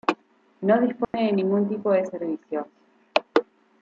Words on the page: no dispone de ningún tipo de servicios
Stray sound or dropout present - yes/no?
yes